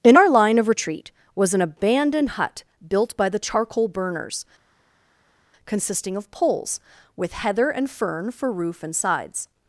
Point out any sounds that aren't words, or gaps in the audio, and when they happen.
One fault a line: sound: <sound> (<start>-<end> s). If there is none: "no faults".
no faults